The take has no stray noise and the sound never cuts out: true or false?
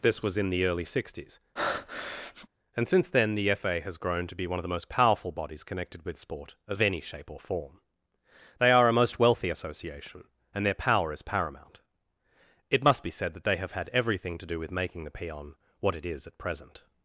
false